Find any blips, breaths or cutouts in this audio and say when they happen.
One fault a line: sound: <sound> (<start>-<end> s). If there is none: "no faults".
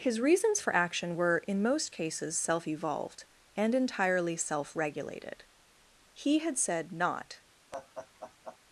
sound: laugh (7.7-8.6 s)